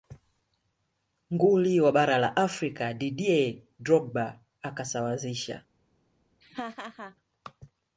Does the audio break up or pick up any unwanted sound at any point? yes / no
yes